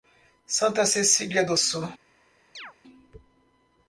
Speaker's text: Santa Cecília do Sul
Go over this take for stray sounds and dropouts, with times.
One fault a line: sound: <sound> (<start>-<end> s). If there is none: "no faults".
sound: chirp (2.5-2.7 s)